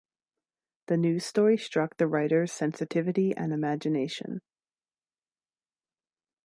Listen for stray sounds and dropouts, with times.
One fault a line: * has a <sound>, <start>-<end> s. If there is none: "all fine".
all fine